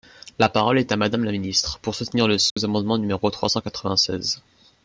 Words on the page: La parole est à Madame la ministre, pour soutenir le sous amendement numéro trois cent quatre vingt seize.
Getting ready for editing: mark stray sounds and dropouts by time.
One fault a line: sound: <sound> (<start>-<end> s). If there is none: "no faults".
sound: dropout (2.5-2.6 s)